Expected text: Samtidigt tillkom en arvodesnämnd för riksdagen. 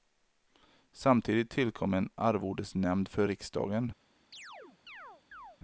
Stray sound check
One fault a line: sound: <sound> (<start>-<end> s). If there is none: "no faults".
sound: chirp (4.3-5.6 s)